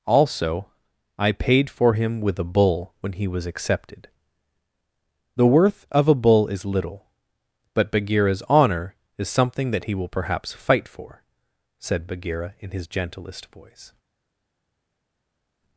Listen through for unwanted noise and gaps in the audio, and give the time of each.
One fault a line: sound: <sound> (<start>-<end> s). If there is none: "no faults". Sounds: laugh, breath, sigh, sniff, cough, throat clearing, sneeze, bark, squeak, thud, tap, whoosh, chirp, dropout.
no faults